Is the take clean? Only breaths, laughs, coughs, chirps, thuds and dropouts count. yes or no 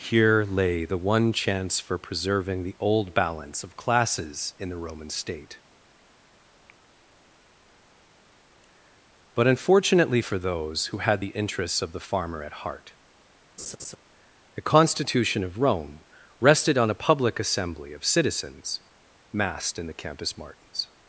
no